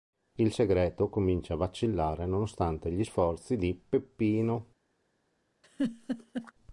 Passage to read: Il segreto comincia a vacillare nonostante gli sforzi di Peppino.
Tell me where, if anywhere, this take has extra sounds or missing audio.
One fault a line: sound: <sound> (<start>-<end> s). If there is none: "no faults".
sound: laugh (5.6-6.5 s)